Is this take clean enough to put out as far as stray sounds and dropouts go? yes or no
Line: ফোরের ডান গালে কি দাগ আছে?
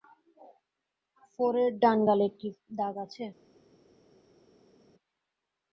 yes